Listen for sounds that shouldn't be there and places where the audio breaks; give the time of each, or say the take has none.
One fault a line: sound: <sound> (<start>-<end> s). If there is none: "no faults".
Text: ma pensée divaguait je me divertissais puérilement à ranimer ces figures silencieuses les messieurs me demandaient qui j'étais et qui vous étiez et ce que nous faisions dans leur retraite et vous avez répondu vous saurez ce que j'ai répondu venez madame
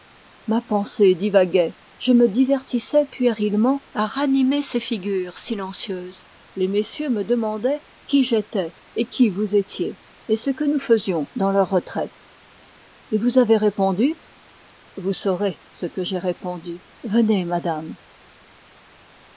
no faults